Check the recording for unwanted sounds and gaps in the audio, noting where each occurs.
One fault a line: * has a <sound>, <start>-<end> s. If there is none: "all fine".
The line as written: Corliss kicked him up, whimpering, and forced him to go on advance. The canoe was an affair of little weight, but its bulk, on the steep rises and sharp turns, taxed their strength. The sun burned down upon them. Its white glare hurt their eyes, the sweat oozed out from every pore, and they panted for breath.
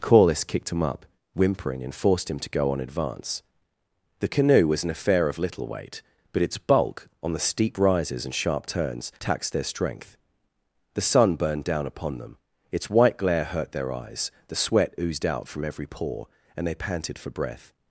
all fine